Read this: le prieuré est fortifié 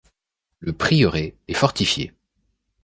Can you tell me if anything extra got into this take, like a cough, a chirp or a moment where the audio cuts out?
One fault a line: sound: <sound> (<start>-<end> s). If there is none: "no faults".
no faults